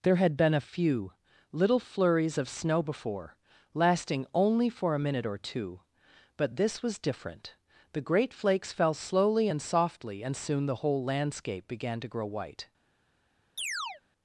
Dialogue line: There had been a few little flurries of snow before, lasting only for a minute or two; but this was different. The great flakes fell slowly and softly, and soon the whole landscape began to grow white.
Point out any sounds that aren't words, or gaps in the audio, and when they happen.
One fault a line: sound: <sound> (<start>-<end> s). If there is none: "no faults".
sound: chirp (13.6-14.0 s)